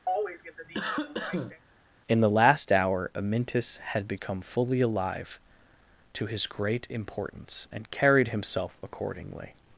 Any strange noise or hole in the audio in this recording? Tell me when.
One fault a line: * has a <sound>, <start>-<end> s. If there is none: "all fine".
* has a cough, 0.1-1.6 s